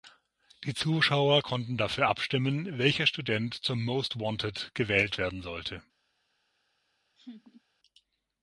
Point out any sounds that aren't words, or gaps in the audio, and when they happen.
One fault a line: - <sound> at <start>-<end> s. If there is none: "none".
- laugh at 7.2-7.6 s